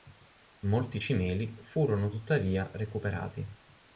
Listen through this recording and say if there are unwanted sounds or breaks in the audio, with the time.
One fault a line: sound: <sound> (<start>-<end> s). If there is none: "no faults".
no faults